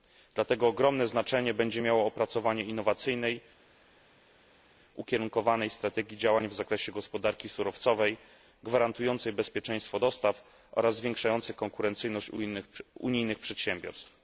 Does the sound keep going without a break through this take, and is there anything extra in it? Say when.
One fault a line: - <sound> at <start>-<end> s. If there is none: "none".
none